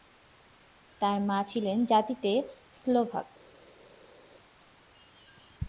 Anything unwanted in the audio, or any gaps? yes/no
no